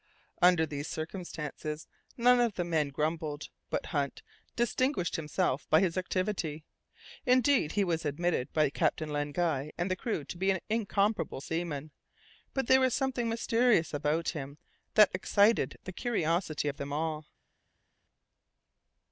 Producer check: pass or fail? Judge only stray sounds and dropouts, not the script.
pass